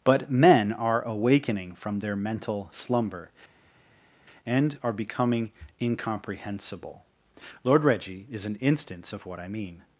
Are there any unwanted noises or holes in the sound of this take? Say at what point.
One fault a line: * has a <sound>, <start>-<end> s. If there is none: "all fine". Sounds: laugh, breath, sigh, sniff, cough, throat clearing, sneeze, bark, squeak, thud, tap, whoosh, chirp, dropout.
all fine